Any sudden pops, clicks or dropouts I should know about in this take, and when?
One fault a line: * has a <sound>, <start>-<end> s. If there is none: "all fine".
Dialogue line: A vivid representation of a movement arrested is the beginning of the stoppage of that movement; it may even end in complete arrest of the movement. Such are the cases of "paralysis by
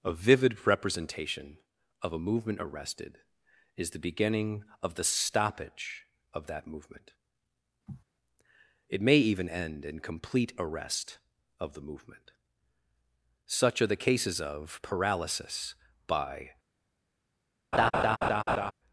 * has a sniff, 7.9-8.0 s
* has a laugh, 17.7-18.7 s